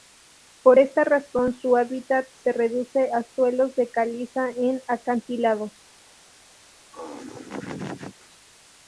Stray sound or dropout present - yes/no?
yes